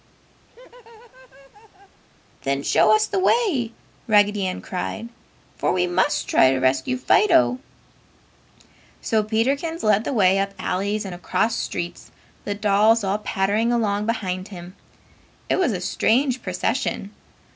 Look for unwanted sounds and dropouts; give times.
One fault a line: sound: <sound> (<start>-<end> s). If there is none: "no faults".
sound: laugh (0.5-2.0 s)